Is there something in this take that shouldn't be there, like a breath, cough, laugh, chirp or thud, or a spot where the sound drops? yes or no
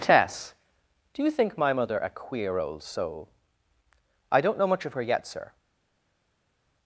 no